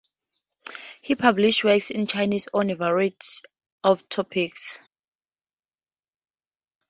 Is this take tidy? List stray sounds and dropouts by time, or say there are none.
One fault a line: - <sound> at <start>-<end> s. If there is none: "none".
none